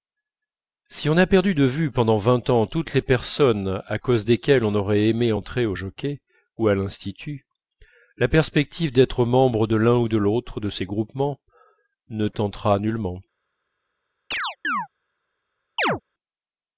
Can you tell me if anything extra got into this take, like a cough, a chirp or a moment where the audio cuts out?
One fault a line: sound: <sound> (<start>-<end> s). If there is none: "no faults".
sound: chirp (14.3-14.9 s)
sound: chirp (15.8-16.0 s)